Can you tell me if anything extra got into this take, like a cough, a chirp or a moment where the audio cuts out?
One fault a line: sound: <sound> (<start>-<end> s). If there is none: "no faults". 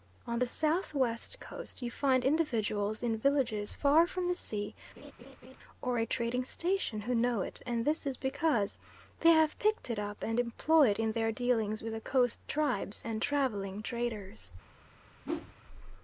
sound: laugh (5.0-5.6 s)
sound: whoosh (15.2-15.6 s)